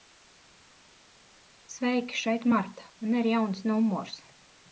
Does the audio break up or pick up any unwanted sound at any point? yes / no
no